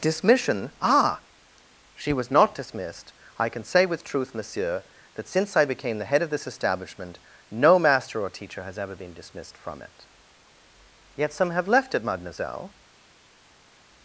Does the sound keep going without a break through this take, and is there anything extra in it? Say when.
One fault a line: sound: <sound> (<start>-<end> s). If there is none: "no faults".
no faults